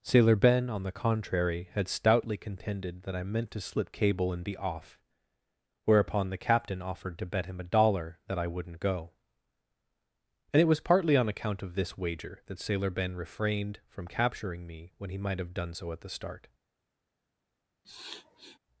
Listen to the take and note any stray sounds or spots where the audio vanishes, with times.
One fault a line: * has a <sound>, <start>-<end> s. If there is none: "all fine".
* has a sniff, 17.8-18.6 s